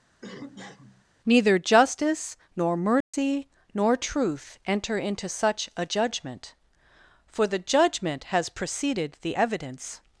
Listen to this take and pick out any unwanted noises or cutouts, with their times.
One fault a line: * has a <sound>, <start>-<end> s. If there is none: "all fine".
* has a cough, 0.2-1.1 s
* has a dropout, 3.0-3.1 s